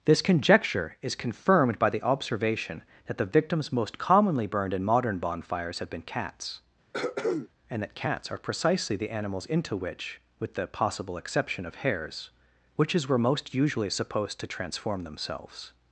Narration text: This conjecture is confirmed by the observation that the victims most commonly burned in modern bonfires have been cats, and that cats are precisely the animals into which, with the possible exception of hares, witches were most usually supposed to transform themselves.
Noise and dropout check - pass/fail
fail